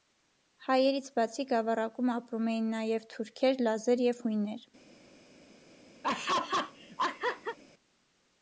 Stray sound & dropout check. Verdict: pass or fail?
fail